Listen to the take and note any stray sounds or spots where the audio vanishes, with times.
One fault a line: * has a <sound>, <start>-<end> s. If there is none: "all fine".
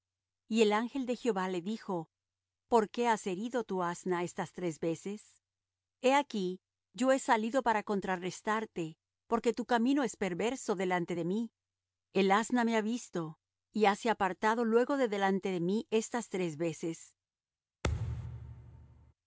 * has a thud, 17.8-19.1 s